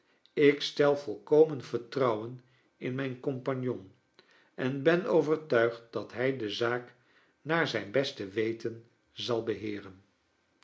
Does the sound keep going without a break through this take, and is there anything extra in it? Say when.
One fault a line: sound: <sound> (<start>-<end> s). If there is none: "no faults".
no faults